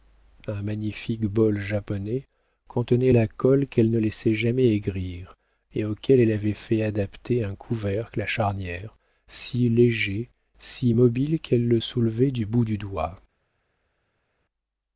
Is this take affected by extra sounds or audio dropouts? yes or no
no